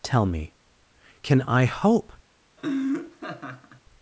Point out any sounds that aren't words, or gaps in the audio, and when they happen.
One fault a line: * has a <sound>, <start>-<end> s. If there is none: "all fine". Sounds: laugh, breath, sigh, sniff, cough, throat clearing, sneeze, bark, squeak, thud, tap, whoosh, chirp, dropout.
* has a laugh, 2.6-3.8 s